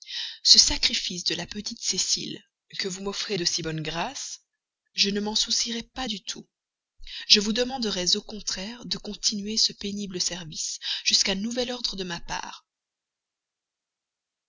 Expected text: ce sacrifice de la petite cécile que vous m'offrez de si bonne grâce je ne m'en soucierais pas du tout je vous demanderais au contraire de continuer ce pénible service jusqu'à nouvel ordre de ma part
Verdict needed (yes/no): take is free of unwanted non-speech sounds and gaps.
yes